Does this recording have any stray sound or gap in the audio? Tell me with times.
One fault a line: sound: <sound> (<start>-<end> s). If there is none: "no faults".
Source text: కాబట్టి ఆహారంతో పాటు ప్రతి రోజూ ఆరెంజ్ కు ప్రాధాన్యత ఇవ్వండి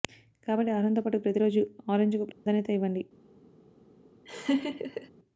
sound: dropout (2.3-2.5 s)
sound: laugh (4.3-5.1 s)